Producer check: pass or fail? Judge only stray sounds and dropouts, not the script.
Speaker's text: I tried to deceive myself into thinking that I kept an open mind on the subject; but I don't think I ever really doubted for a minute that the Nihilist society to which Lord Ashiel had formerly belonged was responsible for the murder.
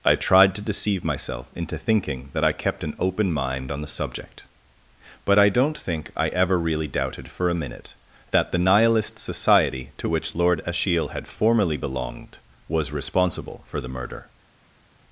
pass